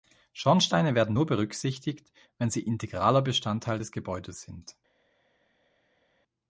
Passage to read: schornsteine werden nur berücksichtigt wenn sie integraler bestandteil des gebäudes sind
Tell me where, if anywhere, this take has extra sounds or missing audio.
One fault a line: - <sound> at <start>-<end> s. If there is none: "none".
none